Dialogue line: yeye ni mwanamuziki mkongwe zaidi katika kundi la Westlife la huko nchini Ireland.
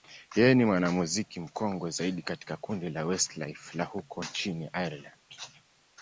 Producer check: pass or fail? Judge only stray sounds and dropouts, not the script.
pass